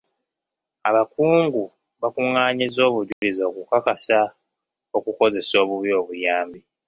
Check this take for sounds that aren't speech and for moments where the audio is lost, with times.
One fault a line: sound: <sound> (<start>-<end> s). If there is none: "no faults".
sound: dropout (3.1-3.2 s)